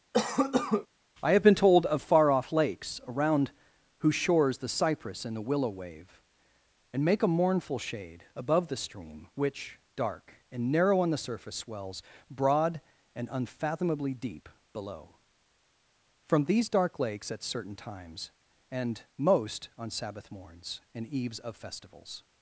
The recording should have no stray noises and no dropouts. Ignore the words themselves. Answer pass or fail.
fail